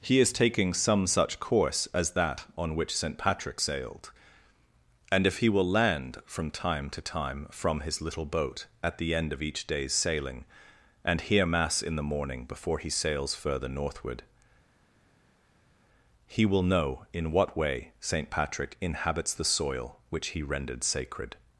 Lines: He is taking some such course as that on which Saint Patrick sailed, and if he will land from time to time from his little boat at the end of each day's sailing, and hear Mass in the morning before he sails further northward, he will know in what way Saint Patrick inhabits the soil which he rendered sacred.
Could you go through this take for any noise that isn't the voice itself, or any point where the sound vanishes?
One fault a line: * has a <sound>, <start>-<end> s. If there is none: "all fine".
all fine